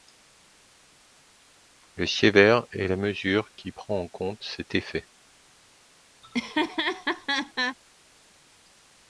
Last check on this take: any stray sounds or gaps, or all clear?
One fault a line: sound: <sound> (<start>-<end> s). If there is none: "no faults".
sound: laugh (6.2-7.8 s)